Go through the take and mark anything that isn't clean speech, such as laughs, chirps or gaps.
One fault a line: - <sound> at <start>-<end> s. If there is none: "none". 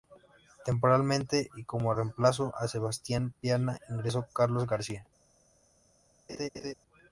- laugh at 6.3-6.7 s